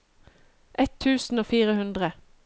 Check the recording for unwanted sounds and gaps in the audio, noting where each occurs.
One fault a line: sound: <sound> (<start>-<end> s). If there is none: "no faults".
no faults